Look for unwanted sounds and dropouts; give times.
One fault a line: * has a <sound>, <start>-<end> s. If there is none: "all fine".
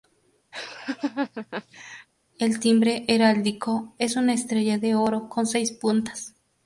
* has a laugh, 0.5-2.1 s